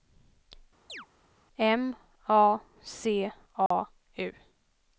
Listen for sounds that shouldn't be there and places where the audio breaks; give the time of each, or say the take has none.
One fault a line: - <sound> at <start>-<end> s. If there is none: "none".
- chirp at 0.9-1.1 s
- dropout at 3.7-3.7 s